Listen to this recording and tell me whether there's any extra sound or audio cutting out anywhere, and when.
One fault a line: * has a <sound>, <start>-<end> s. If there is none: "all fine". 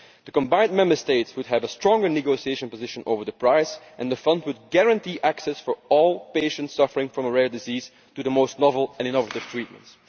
all fine